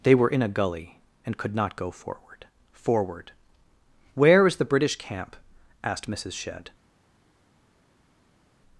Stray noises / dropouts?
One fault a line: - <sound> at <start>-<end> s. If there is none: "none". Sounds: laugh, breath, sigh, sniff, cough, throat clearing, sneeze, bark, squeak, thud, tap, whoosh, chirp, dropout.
none